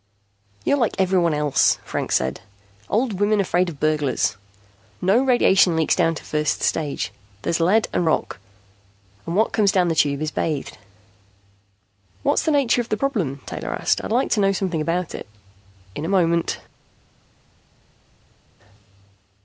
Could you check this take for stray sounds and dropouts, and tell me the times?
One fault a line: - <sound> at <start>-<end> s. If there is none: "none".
none